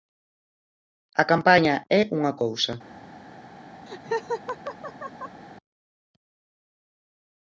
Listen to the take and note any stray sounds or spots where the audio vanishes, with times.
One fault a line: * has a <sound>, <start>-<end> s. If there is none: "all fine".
* has a laugh, 3.9-5.4 s